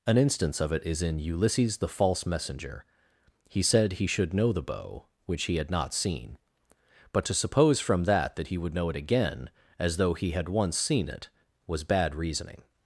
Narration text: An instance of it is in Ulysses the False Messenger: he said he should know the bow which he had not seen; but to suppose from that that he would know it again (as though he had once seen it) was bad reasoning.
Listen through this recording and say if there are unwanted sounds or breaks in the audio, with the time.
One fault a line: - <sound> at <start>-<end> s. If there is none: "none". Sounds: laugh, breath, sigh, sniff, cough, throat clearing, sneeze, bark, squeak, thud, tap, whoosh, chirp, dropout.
none